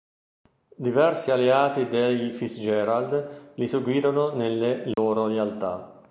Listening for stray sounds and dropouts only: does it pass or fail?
fail